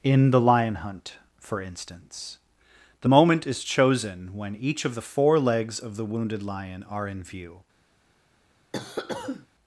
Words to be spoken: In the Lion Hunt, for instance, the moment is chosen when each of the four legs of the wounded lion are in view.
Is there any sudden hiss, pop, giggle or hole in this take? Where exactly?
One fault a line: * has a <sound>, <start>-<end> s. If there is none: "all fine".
* has a cough, 8.7-9.5 s